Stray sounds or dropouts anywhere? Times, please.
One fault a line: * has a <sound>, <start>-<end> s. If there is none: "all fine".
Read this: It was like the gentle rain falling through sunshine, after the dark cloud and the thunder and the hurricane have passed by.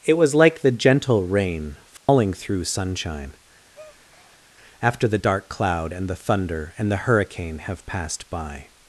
* has a dropout, 2.0-2.1 s
* has a breath, 3.7-4.5 s